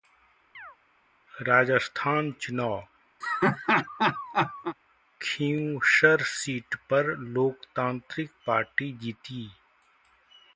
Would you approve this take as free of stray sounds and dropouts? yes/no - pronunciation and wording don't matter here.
no